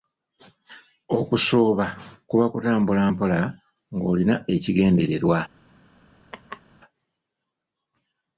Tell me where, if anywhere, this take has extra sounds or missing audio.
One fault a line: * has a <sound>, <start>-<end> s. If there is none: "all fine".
* has a laugh, 6.3-6.6 s